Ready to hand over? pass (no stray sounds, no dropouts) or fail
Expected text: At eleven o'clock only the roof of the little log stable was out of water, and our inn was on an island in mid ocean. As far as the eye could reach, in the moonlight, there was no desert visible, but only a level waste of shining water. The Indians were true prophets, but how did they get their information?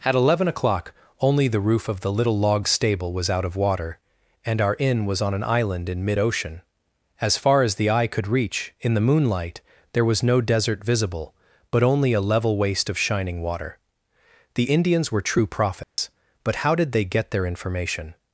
fail